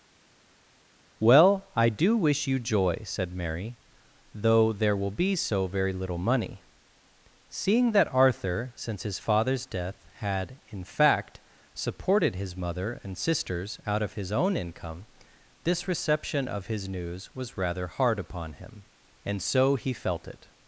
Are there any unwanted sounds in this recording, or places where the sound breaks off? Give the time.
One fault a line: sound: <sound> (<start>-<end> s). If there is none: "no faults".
no faults